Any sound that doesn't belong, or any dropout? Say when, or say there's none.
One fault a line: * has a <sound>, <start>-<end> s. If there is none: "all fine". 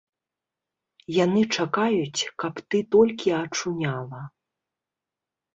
all fine